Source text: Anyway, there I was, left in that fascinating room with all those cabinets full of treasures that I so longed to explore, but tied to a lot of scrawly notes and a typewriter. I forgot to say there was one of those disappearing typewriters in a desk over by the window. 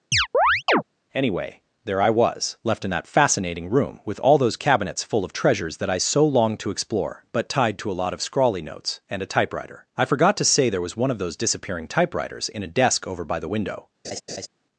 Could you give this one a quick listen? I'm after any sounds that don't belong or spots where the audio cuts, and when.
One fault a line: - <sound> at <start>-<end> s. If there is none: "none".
- chirp at 0.1-0.8 s
- laugh at 14.0-14.5 s